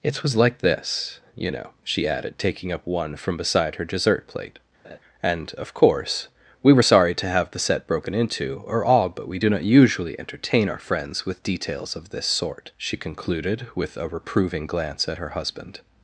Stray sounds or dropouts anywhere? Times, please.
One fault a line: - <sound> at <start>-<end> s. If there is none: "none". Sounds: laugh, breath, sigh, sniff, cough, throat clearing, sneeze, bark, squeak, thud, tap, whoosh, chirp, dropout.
- laugh at 4.8-5.0 s